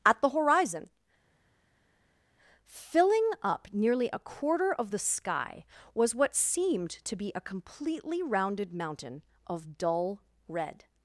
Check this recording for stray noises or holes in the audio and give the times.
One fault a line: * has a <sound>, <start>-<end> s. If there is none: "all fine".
all fine